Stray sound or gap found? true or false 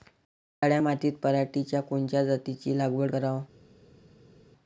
false